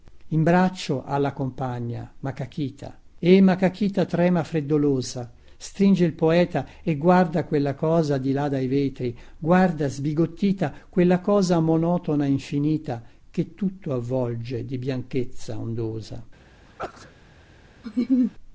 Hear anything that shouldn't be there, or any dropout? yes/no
yes